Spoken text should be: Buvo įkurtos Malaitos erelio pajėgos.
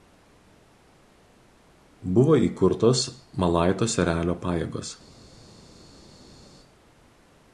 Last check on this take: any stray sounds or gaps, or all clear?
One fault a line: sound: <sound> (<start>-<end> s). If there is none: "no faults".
no faults